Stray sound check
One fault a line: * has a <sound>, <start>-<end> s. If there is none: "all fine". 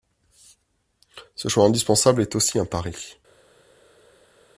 all fine